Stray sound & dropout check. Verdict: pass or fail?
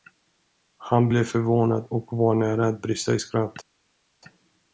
pass